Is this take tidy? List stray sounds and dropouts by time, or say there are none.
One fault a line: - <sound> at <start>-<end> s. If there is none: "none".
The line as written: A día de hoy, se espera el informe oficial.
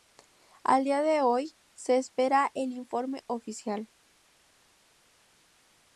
none